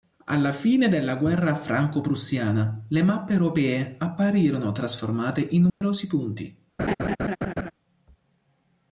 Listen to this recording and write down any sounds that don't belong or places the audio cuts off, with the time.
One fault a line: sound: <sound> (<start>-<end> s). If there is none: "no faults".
sound: dropout (5.7-5.8 s)
sound: laugh (6.8-7.7 s)